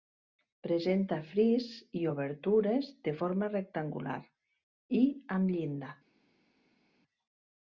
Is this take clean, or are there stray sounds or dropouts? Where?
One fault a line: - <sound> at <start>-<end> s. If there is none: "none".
none